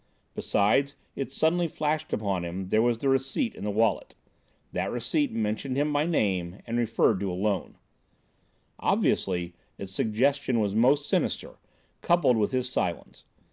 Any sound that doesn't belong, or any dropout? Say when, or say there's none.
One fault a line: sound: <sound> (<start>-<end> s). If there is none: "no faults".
no faults